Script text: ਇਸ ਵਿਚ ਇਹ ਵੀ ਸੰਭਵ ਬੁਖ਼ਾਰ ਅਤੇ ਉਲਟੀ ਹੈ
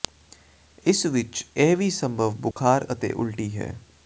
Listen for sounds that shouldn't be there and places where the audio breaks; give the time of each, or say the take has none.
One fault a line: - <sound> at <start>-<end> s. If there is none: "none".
- dropout at 2.5-2.6 s